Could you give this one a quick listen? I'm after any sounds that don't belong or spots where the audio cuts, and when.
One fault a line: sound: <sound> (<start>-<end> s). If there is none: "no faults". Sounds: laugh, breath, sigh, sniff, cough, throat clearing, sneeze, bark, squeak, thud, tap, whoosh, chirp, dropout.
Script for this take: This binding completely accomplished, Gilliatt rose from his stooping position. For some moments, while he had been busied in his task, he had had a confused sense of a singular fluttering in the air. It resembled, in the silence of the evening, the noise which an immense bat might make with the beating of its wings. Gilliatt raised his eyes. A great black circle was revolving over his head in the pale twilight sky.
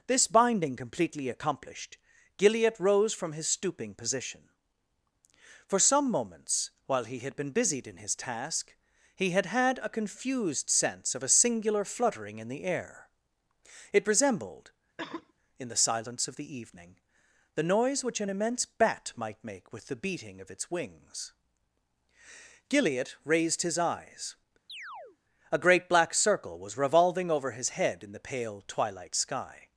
sound: cough (15.0-15.3 s)
sound: chirp (24.7-25.2 s)